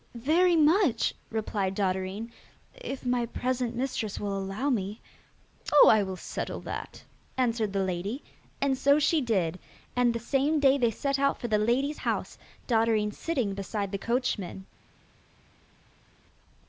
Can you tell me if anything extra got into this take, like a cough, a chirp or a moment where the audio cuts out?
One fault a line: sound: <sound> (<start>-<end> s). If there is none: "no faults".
no faults